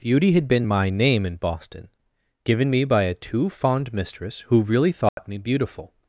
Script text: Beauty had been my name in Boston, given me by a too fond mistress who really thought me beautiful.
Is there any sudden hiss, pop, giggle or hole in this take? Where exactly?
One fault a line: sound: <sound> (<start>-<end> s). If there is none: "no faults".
sound: dropout (5.1-5.2 s)